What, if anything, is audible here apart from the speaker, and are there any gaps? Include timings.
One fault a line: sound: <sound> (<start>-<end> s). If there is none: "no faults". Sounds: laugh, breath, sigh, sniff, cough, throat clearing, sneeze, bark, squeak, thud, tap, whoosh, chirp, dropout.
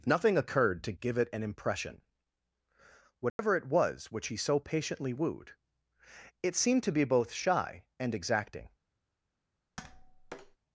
sound: dropout (3.3-3.4 s)
sound: tap (9.8-10.6 s)